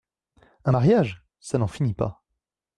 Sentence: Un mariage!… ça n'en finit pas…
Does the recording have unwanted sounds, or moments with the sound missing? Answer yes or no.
no